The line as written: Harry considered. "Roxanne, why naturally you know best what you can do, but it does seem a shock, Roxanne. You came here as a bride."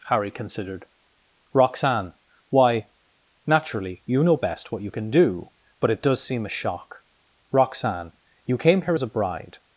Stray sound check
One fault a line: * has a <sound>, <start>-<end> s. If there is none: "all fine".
all fine